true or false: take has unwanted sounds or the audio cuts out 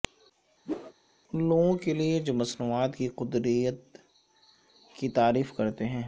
true